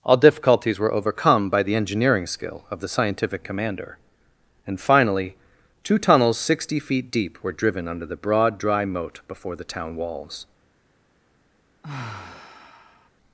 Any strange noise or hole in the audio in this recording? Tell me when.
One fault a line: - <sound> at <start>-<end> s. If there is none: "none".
- sigh at 11.8-13.1 s